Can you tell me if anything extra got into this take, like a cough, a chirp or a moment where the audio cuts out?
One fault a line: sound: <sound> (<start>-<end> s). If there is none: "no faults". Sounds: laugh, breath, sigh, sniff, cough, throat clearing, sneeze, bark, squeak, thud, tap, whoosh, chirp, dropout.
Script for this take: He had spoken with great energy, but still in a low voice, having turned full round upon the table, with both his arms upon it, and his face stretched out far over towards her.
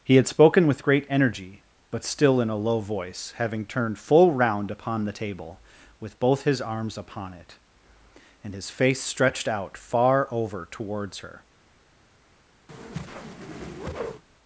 sound: whoosh (12.7-14.2 s)